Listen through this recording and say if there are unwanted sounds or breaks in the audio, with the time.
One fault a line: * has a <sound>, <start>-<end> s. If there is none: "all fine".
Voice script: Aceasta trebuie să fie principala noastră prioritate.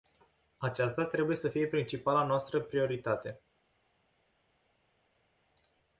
all fine